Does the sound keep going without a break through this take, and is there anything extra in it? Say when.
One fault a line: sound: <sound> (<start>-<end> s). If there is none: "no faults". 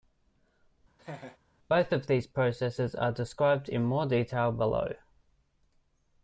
sound: laugh (1.0-1.4 s)